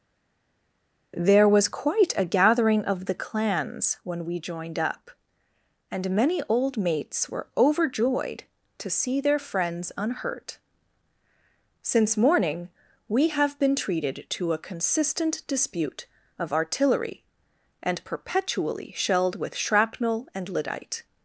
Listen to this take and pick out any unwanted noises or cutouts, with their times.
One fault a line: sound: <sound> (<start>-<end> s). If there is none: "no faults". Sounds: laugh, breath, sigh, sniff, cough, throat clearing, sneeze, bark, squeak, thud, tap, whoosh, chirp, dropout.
no faults